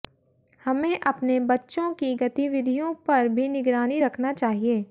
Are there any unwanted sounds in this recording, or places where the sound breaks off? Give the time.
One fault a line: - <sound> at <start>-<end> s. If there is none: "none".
none